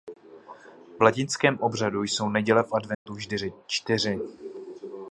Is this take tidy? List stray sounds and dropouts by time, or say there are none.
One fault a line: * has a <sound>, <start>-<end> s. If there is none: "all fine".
* has a dropout, 2.9-3.1 s